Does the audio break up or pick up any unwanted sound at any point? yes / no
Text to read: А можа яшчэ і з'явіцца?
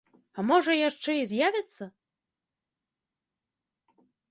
no